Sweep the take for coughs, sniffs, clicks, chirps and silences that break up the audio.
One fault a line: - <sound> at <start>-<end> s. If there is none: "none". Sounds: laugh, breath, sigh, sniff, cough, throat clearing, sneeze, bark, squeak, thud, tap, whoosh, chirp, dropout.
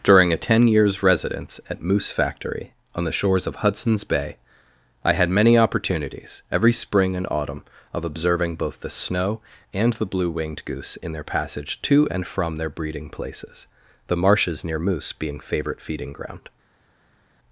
none